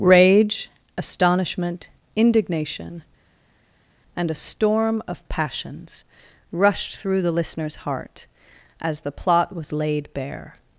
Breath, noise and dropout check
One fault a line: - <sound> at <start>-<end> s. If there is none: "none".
none